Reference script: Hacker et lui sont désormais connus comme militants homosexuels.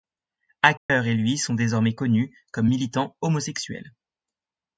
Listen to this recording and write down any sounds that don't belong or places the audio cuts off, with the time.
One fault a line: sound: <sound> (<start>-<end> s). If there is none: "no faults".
sound: dropout (0.8-0.9 s)